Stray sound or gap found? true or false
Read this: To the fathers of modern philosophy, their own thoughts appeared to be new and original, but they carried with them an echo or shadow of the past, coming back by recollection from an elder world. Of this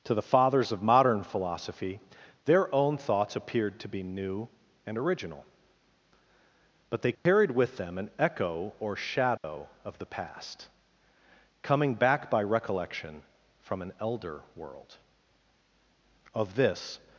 true